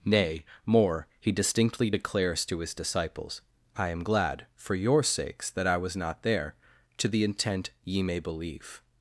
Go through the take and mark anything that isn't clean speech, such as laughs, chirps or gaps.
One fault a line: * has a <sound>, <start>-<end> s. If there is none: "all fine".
all fine